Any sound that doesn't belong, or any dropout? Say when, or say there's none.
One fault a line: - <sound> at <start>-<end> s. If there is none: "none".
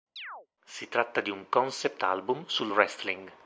- chirp at 0.2-0.5 s